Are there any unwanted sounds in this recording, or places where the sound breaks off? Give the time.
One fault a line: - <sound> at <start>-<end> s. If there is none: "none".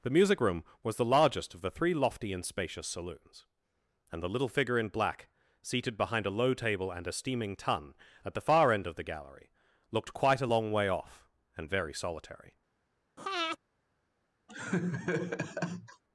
- breath at 13.2-13.6 s
- laugh at 14.5-16.0 s